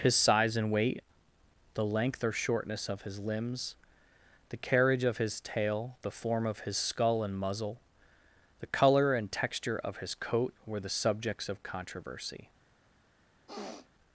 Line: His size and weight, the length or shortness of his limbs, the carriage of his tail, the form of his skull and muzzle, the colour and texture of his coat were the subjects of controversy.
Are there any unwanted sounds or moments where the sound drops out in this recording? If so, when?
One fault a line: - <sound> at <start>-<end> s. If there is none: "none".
- sniff at 13.5-13.9 s